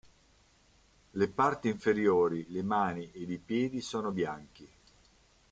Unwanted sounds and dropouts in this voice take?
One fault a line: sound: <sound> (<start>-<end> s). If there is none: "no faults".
no faults